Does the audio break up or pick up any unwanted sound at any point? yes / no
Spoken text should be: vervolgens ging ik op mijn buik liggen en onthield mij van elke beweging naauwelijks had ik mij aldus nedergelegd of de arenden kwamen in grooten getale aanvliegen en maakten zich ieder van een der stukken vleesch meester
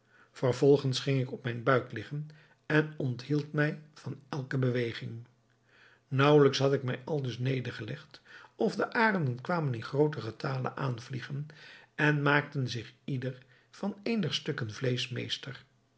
no